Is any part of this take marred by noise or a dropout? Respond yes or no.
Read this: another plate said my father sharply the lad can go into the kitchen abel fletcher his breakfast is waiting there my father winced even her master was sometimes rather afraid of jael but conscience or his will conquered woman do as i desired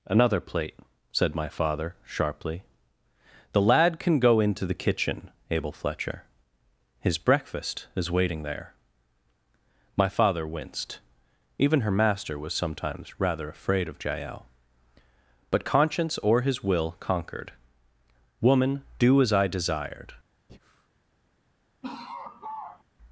yes